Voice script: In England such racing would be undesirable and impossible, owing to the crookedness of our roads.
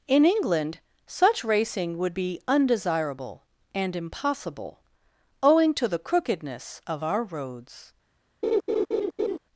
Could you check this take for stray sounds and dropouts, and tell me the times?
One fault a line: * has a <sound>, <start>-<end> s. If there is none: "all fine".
* has a laugh, 8.4-9.4 s